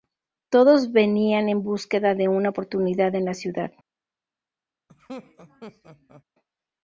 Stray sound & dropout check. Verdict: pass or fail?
fail